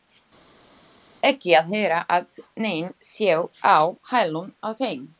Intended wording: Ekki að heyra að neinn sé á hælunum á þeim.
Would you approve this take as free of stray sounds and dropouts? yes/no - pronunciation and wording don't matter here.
yes